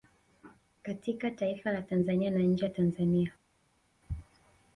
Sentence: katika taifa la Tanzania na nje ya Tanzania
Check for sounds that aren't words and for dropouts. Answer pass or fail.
pass